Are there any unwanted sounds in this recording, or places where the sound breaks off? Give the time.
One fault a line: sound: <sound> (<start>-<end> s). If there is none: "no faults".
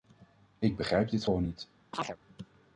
sound: chirp (1.9-2.2 s)